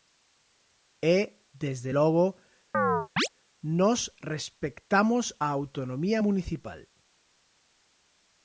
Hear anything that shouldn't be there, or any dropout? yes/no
yes